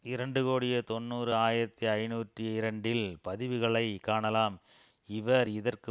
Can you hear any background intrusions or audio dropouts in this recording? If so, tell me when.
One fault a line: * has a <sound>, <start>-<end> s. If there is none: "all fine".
all fine